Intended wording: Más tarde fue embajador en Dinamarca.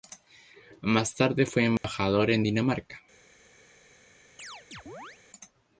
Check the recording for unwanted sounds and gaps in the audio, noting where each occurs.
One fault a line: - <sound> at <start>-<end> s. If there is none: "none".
- dropout at 1.8-1.8 s
- chirp at 4.4-5.2 s